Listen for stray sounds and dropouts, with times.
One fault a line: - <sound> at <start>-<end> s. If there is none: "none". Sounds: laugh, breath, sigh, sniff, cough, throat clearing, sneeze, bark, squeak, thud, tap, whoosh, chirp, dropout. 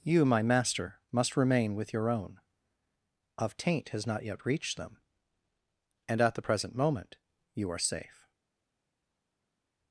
none